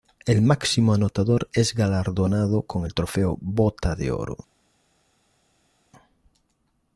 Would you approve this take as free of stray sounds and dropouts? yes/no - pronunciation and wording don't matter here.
yes